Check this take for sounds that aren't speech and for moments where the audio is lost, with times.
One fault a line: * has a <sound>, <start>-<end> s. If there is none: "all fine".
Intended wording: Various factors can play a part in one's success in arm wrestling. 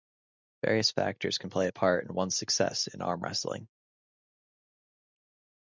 all fine